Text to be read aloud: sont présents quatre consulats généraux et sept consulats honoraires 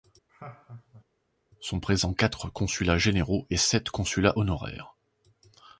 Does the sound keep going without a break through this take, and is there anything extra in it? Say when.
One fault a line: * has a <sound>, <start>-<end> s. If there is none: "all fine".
* has a laugh, 0.3-1.0 s